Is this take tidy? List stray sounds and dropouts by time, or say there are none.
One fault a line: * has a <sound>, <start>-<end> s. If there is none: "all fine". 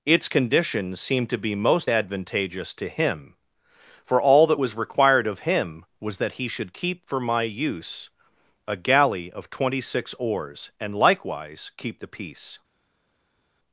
all fine